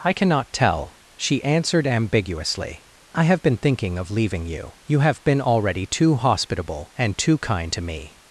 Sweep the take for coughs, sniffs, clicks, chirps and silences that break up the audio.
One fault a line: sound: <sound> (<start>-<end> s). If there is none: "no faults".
no faults